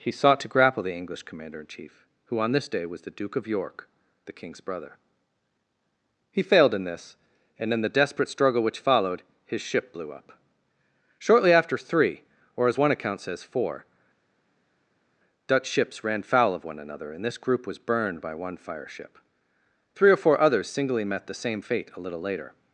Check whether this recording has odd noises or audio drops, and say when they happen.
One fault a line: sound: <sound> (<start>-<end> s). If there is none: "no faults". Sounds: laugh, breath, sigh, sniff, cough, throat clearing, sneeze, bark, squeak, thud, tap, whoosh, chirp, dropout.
no faults